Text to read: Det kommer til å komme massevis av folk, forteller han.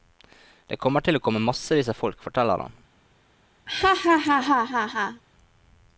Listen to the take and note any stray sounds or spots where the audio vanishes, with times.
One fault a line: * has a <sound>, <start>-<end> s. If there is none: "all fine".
* has a laugh, 3.7-5.2 s